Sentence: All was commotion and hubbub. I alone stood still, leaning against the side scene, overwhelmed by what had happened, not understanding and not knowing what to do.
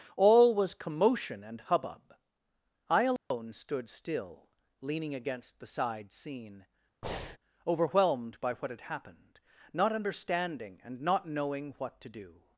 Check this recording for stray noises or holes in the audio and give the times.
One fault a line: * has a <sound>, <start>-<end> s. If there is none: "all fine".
* has a dropout, 3.2-3.3 s
* has a breath, 7.0-7.4 s